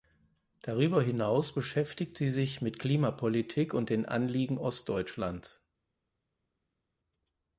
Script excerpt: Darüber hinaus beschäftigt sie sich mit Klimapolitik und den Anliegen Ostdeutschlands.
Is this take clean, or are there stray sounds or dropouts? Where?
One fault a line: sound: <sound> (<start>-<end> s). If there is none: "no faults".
no faults